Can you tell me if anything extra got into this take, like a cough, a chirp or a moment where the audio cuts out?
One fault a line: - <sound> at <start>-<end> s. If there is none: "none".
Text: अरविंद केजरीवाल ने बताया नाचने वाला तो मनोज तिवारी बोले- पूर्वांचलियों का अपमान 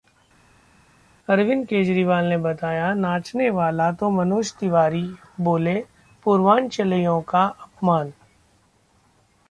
none